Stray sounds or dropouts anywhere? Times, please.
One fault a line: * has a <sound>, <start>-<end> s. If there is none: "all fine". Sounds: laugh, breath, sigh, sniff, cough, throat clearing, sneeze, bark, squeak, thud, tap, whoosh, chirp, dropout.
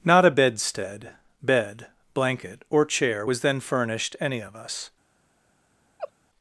* has a laugh, 6.0-6.1 s